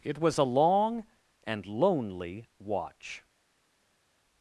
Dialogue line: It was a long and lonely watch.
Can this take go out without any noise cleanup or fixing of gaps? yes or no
yes